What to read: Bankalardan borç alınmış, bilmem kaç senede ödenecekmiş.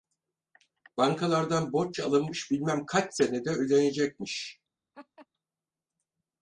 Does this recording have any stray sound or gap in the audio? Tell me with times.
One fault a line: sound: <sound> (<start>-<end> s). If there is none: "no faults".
sound: laugh (4.9-5.3 s)